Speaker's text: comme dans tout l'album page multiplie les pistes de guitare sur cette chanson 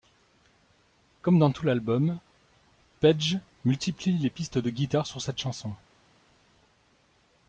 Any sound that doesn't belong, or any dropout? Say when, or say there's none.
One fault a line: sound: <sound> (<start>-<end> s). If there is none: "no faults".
no faults